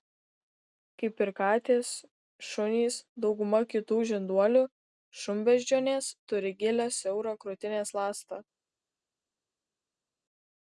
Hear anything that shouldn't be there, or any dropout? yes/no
no